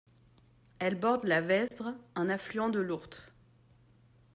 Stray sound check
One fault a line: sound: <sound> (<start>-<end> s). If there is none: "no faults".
sound: dropout (1.7-1.7 s)